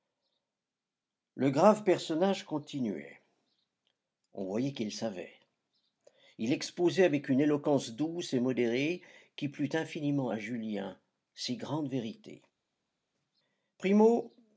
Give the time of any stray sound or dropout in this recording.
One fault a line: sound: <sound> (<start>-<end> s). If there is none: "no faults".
no faults